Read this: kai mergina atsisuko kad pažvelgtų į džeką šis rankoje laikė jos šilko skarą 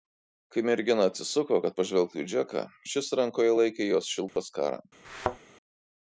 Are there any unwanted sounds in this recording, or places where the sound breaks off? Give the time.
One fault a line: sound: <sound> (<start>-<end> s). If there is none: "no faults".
sound: dropout (4.3-4.4 s)
sound: thud (5.0-5.4 s)